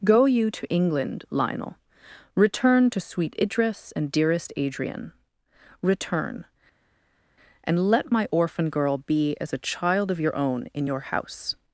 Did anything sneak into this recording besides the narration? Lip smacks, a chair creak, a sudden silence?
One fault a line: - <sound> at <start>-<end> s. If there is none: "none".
none